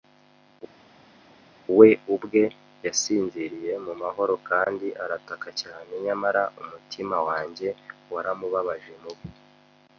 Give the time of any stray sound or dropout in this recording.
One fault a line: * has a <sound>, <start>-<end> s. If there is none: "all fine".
all fine